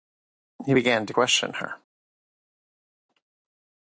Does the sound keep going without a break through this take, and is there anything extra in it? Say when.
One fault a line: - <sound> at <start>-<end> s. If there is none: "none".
none